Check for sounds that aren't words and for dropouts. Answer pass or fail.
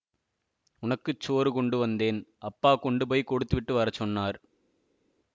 pass